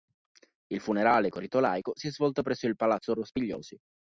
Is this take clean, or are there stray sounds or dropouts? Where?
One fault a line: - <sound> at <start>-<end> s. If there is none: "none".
none